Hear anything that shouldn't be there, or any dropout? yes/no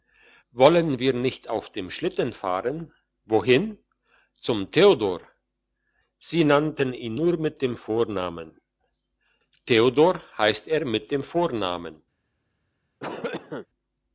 yes